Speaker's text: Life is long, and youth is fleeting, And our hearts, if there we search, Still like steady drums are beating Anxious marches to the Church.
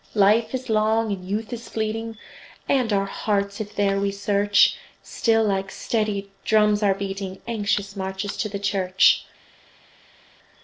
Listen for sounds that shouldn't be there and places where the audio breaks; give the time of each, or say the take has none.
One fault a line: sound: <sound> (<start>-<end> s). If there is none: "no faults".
no faults